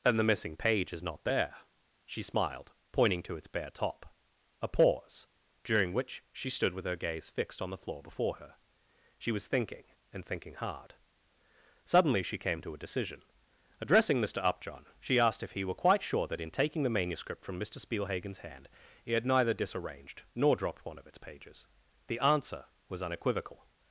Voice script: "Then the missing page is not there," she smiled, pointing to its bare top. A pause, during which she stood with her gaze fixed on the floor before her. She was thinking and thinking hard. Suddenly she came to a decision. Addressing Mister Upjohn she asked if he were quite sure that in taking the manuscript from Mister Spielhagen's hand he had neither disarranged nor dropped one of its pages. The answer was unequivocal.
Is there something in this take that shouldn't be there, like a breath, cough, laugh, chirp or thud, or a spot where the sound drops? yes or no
no